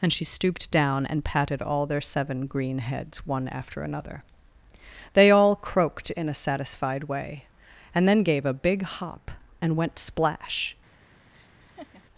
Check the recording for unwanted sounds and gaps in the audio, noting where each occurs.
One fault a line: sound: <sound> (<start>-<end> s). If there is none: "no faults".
sound: laugh (11.3-12.0 s)